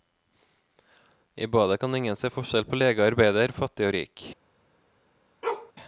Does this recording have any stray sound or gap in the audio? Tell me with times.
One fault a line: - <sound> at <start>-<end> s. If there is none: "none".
- bark at 5.4-5.7 s